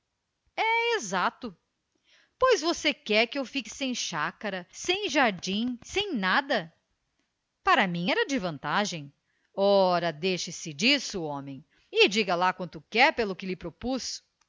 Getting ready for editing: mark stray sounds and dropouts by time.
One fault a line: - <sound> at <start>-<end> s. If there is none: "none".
none